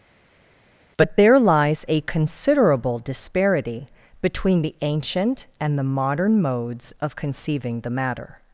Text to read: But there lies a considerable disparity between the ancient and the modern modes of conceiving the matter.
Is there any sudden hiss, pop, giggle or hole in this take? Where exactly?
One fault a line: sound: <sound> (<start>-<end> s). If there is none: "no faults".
no faults